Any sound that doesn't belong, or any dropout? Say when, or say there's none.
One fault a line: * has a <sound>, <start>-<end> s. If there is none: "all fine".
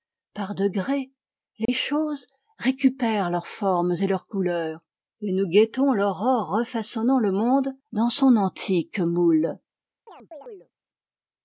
* has a dropout, 1.7-1.7 s
* has a chirp, 10.1-10.7 s